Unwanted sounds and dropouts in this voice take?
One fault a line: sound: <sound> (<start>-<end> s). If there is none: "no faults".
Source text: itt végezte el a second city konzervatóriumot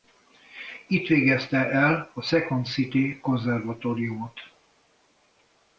no faults